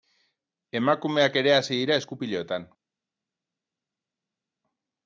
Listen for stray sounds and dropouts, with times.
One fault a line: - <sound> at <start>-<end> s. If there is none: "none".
none